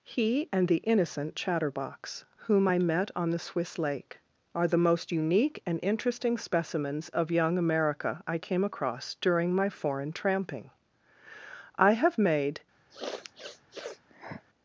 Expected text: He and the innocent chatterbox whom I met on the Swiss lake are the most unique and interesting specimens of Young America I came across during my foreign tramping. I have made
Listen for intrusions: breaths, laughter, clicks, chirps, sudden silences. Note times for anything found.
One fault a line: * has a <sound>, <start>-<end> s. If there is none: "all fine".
* has a sniff, 12.9-14.4 s